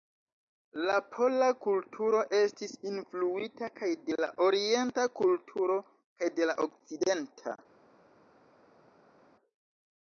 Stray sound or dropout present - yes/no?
no